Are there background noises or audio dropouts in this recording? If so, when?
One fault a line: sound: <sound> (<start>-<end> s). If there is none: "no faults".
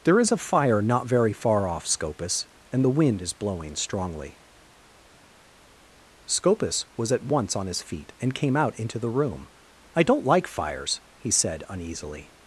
no faults